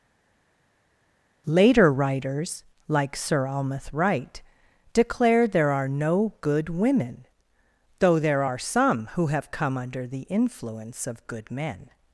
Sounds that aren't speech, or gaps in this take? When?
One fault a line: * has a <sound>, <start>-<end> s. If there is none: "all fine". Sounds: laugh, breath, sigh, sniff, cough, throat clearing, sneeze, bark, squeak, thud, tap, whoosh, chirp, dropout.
all fine